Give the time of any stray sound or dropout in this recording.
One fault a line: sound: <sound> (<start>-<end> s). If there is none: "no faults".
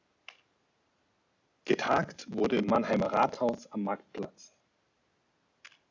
no faults